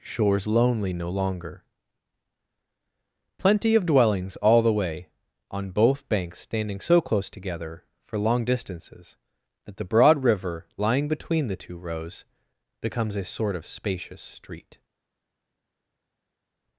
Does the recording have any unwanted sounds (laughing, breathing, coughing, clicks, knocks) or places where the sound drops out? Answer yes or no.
no